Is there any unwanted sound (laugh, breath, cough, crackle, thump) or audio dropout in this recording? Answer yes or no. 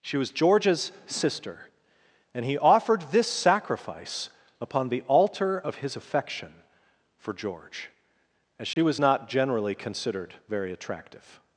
yes